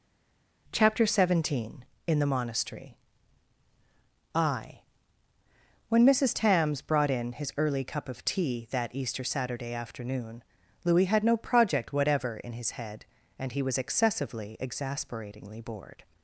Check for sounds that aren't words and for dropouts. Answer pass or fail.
pass